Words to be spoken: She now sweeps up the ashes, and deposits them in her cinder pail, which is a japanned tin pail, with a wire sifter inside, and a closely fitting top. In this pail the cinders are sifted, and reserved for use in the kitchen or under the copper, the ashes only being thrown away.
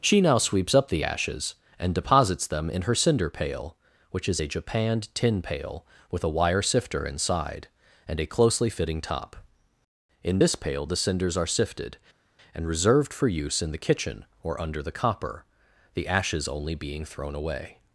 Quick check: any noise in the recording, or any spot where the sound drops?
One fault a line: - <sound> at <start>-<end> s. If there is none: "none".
none